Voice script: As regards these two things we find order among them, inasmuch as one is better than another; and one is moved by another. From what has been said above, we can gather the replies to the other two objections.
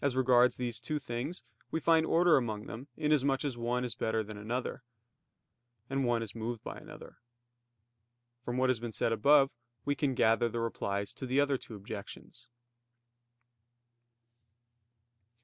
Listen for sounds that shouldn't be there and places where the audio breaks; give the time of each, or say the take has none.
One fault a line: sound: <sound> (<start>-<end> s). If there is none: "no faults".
no faults